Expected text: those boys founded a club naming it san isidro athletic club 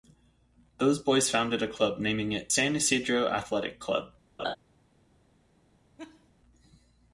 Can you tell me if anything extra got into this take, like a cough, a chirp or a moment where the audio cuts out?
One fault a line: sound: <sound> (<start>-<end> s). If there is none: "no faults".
sound: laugh (4.4-4.6 s)
sound: laugh (6.0-6.3 s)